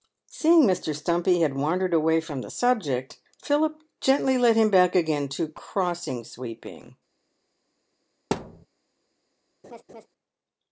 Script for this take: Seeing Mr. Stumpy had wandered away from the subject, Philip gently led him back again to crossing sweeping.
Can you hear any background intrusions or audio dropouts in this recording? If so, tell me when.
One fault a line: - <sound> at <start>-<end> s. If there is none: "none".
- thud at 8.3-8.7 s
- laugh at 9.6-10.1 s